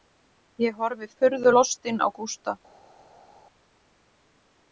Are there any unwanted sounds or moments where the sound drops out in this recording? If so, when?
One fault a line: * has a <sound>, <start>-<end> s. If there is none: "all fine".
all fine